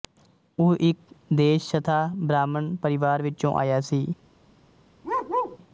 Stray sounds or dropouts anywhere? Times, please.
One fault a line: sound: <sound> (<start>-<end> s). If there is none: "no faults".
sound: bark (5.0-5.6 s)